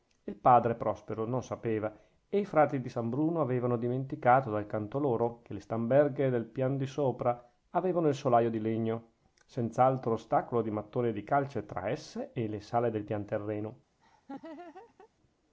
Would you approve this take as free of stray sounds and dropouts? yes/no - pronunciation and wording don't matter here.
no